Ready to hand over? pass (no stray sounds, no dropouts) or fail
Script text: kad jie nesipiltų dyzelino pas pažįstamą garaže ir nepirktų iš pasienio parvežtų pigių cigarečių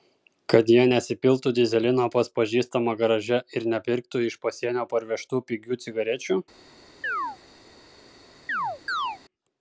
fail